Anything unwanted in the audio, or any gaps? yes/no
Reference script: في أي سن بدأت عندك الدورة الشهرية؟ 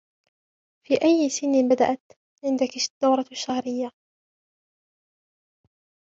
no